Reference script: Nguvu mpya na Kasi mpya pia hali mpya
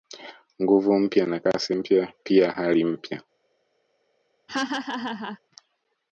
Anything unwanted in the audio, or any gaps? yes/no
yes